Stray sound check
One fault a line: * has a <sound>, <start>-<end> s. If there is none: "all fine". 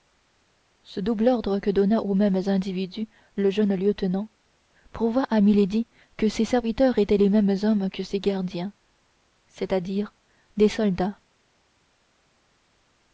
all fine